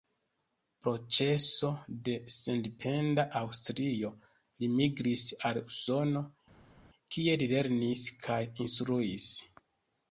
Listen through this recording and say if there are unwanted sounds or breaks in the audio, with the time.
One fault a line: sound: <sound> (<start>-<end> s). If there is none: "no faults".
no faults